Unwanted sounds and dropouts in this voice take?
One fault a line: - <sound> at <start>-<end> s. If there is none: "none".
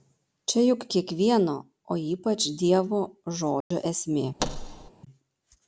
- dropout at 3.6-3.7 s
- thud at 4.4-4.9 s